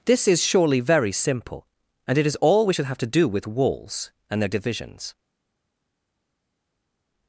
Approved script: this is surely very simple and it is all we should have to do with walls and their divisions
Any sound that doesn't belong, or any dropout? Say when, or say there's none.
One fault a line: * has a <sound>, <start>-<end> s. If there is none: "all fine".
all fine